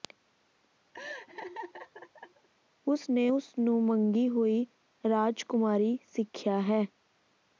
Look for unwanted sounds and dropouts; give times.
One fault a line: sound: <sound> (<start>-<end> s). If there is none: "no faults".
sound: laugh (0.9-2.5 s)